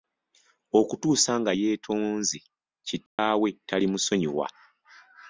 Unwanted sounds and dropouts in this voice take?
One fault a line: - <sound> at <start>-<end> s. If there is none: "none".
- dropout at 3.1-3.2 s